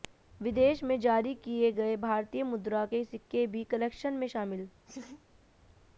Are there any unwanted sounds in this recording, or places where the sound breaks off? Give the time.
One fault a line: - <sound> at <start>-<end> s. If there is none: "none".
- laugh at 4.9-5.2 s